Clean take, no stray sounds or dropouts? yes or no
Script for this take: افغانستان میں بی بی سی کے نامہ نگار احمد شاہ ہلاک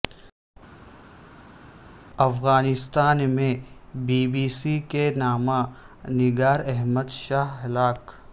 yes